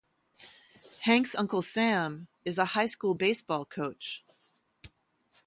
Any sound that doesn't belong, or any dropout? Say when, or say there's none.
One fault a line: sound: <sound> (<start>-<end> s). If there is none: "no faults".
no faults